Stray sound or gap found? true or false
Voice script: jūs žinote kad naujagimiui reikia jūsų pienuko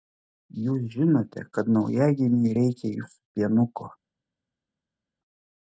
false